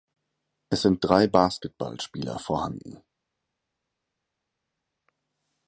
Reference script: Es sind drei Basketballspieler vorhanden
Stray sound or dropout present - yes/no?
no